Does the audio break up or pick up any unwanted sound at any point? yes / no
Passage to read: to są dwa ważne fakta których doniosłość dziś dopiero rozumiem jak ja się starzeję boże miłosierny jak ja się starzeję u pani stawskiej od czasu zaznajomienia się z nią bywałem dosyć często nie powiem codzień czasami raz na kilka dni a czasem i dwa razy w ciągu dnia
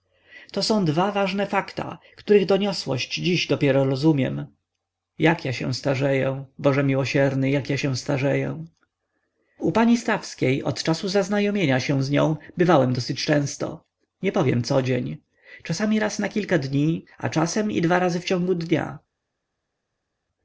no